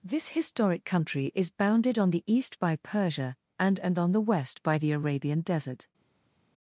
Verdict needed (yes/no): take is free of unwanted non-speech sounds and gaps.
yes